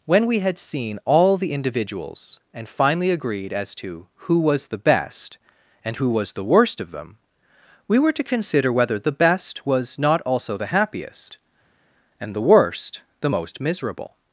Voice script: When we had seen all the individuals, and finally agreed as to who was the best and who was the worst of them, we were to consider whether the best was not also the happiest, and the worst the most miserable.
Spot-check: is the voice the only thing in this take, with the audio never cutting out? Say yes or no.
yes